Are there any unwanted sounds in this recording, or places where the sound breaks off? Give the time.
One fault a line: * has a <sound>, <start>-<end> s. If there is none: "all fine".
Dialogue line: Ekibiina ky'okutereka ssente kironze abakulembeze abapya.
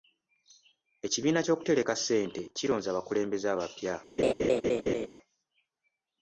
* has a laugh, 4.2-5.1 s